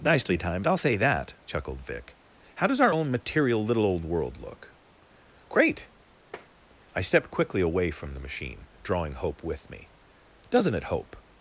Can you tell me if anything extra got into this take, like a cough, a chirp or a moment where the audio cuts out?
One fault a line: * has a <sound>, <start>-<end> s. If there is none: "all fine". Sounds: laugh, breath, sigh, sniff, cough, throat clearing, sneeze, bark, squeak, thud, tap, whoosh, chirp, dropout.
* has a tap, 6.3-6.5 s